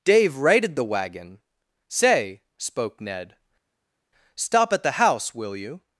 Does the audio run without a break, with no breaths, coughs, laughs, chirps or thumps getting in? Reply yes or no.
yes